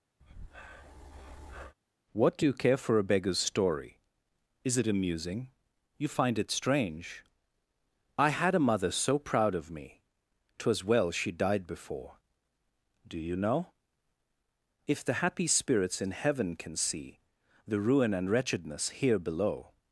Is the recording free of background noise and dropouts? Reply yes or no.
no